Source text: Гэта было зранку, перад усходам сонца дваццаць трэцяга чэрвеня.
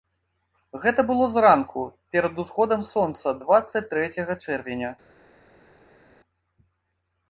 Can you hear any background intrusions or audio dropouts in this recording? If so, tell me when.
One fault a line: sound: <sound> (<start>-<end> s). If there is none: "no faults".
no faults